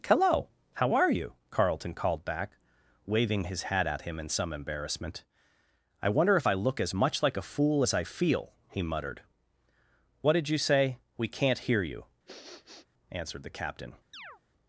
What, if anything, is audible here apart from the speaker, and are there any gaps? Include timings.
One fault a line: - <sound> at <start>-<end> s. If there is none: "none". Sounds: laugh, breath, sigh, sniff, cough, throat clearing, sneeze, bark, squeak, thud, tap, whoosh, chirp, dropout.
- sniff at 12.3-12.9 s
- chirp at 14.1-14.4 s